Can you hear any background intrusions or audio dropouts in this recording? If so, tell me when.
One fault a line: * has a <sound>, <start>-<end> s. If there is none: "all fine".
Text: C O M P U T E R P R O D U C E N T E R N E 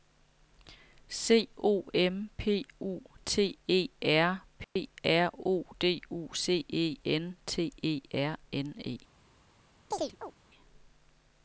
* has a dropout, 4.6-4.8 s
* has a chirp, 9.9-10.3 s